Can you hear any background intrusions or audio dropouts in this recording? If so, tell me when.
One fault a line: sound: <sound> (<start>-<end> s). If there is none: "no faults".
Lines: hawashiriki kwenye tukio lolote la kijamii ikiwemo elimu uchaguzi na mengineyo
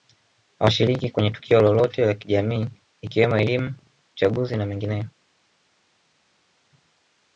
no faults